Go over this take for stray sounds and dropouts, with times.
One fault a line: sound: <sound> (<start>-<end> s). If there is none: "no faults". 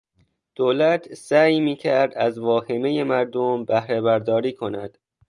no faults